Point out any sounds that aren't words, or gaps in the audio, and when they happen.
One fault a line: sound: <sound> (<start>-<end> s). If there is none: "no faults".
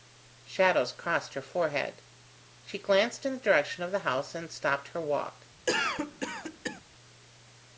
sound: cough (5.7-6.8 s)